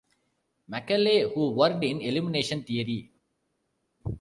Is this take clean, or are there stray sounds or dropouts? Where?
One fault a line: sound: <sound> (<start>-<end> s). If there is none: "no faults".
no faults